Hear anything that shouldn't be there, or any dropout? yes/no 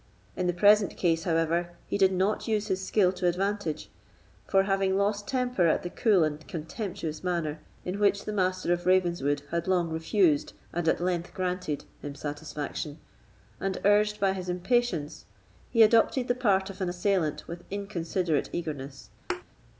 yes